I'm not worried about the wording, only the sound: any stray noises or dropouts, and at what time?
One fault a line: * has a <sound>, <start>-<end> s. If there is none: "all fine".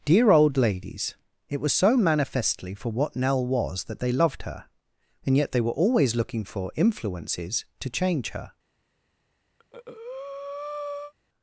* has a breath, 9.6-11.1 s